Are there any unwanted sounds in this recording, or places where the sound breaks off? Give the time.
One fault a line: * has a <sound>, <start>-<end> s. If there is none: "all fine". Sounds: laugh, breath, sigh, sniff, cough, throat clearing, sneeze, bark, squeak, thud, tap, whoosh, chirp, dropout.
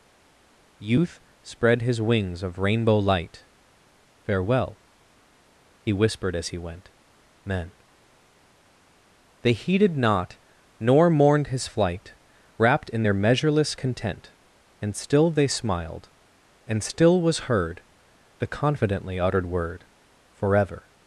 all fine